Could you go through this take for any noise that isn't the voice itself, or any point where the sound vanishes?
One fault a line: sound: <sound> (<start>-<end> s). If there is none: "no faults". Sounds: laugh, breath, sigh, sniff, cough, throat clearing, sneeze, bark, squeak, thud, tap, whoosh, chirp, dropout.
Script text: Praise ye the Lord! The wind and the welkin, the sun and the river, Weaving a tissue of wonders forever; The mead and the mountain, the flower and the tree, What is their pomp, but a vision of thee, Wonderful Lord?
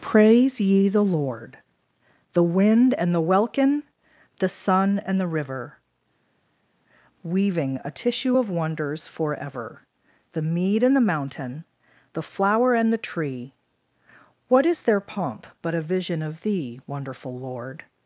no faults